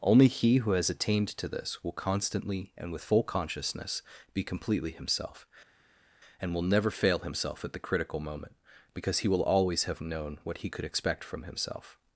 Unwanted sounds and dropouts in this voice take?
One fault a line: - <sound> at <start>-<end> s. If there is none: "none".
none